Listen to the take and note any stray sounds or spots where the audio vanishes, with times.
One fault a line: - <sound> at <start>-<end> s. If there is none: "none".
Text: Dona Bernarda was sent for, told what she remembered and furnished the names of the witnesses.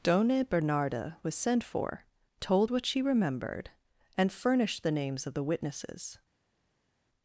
none